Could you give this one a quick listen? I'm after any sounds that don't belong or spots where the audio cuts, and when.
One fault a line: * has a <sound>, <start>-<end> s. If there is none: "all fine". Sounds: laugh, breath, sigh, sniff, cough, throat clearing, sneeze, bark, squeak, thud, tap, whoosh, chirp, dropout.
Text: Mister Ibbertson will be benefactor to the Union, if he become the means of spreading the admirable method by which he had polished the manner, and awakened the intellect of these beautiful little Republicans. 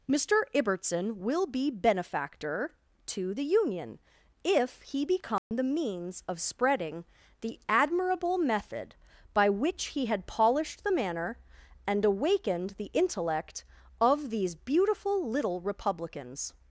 * has a dropout, 5.4-5.5 s